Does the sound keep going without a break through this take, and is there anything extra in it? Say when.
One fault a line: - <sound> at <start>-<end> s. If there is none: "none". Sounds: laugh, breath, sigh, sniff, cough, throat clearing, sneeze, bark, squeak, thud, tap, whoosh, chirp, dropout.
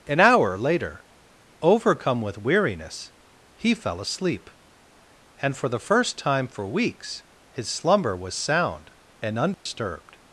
- dropout at 9.5-9.7 s